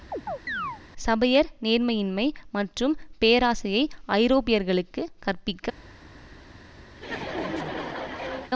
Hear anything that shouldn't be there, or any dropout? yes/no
yes